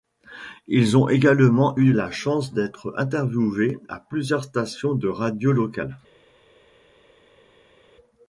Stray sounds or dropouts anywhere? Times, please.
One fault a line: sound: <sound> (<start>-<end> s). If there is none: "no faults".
no faults